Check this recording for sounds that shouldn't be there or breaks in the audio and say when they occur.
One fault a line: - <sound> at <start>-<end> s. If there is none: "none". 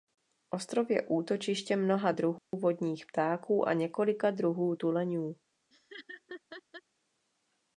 - dropout at 2.4-2.5 s
- laugh at 5.7-6.8 s